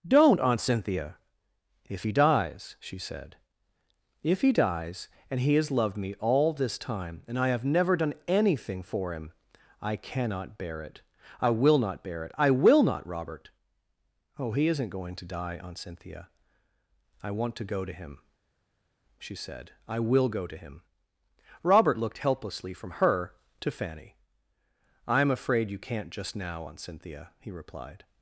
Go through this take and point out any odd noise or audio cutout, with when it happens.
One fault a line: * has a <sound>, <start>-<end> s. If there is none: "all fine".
all fine